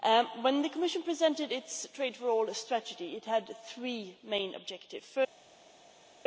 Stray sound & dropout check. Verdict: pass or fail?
pass